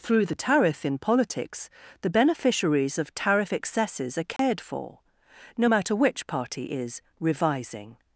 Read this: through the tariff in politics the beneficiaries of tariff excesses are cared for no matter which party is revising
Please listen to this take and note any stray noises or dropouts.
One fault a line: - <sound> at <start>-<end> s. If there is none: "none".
- dropout at 4.4-4.4 s